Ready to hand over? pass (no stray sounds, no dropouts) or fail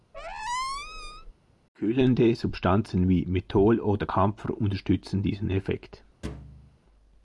fail